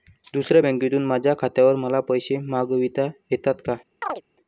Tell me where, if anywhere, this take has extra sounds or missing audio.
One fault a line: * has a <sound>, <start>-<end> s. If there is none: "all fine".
* has a chirp, 4.0-4.2 s